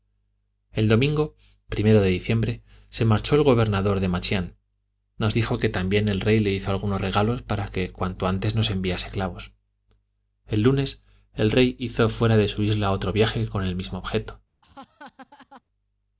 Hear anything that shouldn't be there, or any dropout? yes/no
yes